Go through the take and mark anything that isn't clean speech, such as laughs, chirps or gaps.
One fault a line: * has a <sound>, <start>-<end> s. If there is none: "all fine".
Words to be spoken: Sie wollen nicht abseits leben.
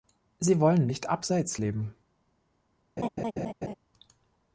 * has a laugh, 3.0-3.7 s